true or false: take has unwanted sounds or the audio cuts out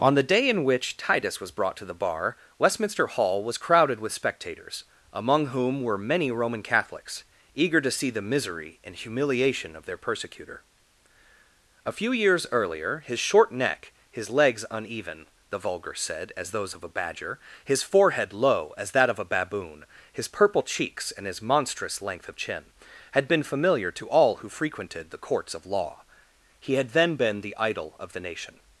false